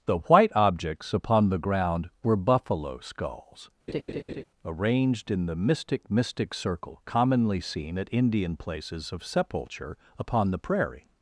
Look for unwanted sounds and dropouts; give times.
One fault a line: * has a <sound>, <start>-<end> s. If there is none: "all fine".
* has a laugh, 3.9-4.4 s